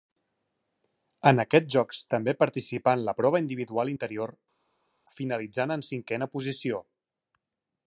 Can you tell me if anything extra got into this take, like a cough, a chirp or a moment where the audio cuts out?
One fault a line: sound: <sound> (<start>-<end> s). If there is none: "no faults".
no faults